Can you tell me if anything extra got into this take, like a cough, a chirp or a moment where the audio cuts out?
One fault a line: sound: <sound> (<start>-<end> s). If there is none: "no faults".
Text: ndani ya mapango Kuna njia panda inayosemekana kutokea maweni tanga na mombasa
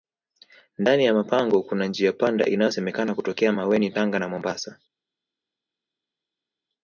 no faults